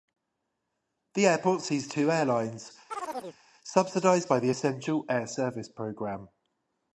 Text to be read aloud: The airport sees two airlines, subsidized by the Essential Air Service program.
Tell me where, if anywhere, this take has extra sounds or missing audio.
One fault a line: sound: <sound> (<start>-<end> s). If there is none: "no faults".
sound: chirp (2.9-3.4 s)